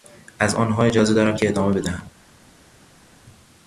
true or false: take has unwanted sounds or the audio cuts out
false